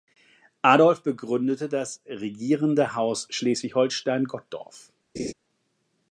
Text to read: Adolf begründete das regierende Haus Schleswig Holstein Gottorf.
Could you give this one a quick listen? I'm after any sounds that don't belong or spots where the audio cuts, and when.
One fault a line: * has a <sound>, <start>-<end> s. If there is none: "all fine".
* has a laugh, 5.2-5.3 s